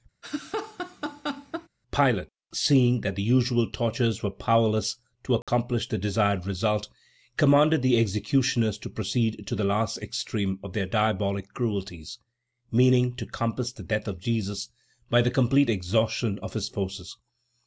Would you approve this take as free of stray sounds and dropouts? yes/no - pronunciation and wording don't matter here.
no